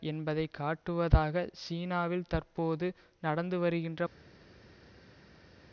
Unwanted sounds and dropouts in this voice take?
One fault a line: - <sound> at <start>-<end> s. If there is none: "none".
none